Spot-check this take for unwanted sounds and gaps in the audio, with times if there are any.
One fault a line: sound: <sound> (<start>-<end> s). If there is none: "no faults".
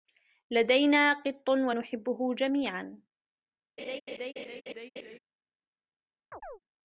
sound: laugh (3.8-5.2 s)
sound: chirp (6.3-6.6 s)